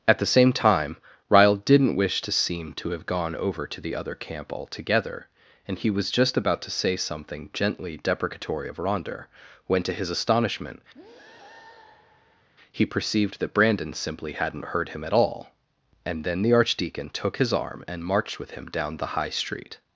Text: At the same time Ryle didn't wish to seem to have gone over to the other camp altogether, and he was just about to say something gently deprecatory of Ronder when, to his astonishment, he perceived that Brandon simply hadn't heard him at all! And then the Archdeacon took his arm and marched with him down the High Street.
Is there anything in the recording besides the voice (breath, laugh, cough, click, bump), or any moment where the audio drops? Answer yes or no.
yes